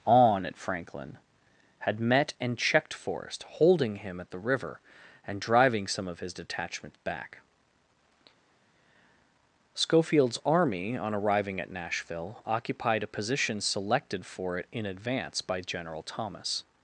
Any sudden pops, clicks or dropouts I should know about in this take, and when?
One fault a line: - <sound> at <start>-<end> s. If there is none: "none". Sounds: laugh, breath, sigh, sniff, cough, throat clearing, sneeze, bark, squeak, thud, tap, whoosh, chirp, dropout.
none